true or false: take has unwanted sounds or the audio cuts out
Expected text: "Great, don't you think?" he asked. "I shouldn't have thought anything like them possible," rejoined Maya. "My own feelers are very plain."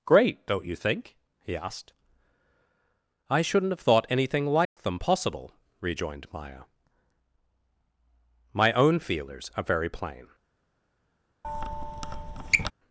true